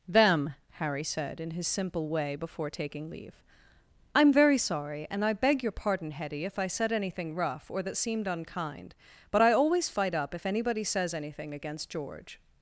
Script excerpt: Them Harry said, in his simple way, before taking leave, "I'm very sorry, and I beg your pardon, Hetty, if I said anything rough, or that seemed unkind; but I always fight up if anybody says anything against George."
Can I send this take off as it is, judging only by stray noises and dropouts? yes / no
yes